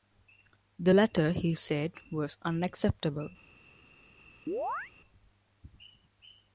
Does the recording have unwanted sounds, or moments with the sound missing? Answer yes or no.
yes